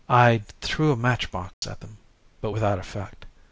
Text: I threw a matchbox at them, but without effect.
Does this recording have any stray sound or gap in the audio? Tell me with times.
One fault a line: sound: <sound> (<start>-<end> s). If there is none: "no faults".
sound: dropout (1.5-1.6 s)